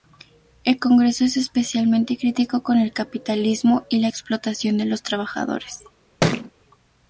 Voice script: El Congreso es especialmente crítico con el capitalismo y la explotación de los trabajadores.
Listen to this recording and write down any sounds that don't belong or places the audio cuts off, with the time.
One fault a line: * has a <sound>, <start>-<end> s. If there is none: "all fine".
* has a thud, 6.2-6.5 s